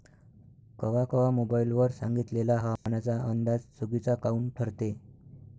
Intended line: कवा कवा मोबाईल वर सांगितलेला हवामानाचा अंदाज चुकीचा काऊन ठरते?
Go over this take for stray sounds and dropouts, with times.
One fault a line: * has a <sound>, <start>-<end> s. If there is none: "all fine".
* has a dropout, 2.8-2.9 s